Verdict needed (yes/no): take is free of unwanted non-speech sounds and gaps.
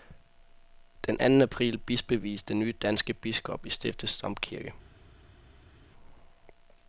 yes